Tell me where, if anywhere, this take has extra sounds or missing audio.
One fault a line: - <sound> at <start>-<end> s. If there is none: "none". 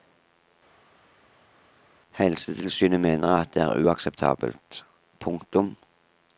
none